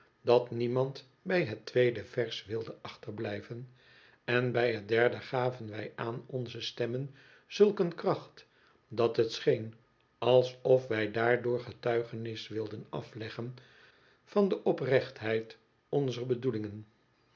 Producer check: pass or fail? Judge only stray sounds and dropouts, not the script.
pass